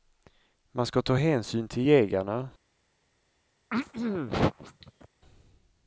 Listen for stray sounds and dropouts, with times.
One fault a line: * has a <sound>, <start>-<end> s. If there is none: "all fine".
* has a throat clearing, 3.7-5.1 s